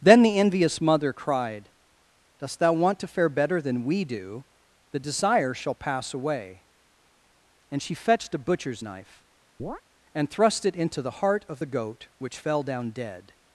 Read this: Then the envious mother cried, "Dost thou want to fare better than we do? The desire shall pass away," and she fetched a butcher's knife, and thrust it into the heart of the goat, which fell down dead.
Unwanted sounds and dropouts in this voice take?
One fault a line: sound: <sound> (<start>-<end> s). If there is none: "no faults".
sound: chirp (9.6-9.8 s)